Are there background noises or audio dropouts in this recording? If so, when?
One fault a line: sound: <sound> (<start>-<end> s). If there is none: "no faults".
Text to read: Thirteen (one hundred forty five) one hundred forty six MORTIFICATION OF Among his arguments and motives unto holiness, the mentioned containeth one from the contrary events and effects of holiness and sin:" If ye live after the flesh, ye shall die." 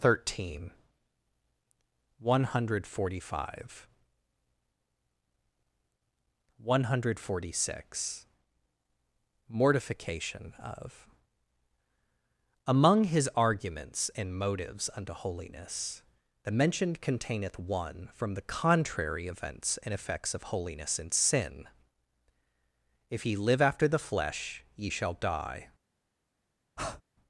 sound: breath (26.8-27.0 s)